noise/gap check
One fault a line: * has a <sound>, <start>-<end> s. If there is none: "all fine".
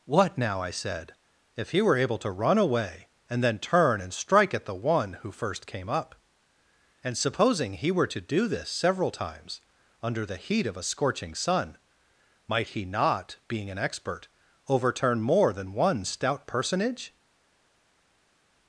all fine